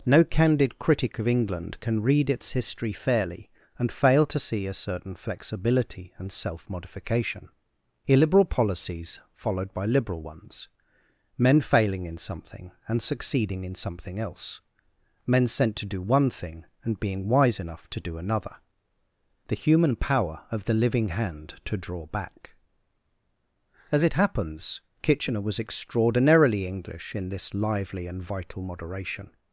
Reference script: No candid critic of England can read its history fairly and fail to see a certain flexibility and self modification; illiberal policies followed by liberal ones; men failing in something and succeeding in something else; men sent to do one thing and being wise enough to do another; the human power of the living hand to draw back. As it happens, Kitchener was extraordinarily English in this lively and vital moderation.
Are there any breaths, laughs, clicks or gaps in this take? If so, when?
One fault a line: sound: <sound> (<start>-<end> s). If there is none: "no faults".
no faults